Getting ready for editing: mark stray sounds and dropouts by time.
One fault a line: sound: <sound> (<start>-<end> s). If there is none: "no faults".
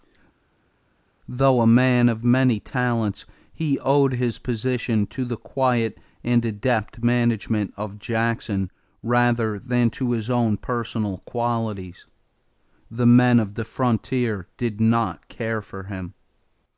no faults